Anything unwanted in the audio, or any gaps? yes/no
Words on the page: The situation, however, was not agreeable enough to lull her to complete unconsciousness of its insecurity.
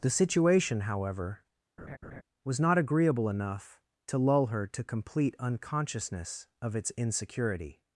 yes